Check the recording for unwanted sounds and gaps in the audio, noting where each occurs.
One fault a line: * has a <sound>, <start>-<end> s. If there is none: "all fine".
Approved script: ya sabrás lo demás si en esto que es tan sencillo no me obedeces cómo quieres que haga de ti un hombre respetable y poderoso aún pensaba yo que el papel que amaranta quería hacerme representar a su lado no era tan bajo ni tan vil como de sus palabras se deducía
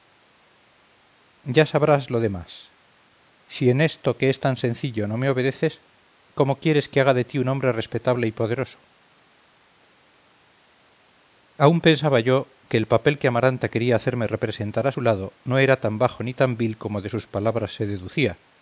all fine